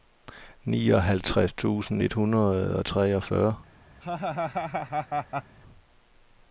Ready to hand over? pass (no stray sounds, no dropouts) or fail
fail